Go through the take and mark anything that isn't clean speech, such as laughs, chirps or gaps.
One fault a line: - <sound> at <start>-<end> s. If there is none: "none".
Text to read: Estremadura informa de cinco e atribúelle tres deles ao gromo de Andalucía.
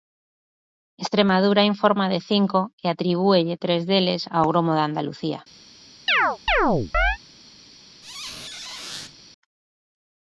- chirp at 6.1-7.2 s
- squeak at 8.0-9.2 s